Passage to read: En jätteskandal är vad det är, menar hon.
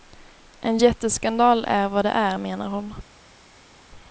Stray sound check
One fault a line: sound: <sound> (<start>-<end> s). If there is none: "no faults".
no faults